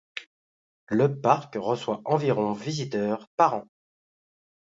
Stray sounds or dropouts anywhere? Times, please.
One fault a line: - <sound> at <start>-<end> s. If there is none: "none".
none